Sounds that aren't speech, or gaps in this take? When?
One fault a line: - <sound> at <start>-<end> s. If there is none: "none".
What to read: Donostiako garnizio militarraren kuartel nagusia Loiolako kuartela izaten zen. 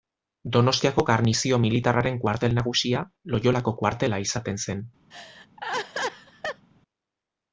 - laugh at 5.1-6.7 s